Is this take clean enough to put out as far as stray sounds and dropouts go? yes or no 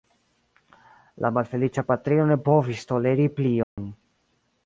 no